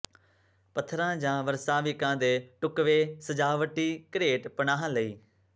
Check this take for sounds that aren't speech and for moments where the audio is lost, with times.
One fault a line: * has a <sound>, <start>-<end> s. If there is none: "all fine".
all fine